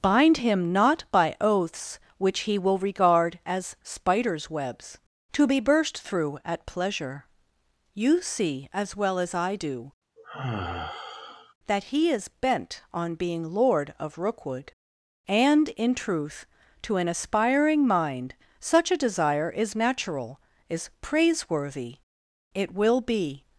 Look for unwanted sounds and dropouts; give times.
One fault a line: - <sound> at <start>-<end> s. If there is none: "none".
- sigh at 10.2-11.5 s